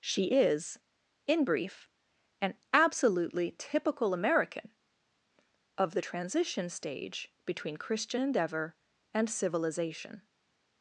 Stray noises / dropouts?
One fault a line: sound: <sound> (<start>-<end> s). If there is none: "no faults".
no faults